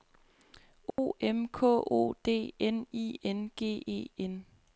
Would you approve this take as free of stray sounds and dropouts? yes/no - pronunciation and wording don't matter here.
no